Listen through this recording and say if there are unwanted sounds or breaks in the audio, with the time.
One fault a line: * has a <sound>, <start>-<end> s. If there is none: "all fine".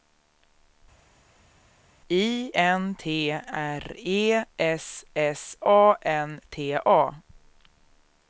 all fine